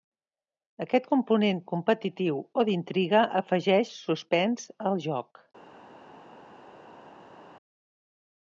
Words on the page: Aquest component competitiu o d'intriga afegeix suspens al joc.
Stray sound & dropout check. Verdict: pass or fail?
pass